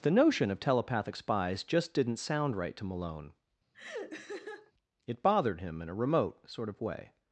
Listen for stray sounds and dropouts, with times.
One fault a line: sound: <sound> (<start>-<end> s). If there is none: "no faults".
sound: laugh (3.7-4.7 s)